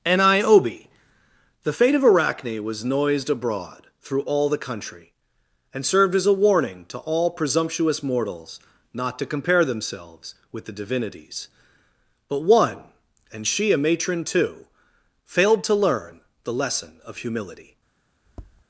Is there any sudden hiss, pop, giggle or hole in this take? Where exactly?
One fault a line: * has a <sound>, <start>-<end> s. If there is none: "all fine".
* has a tap, 18.3-18.6 s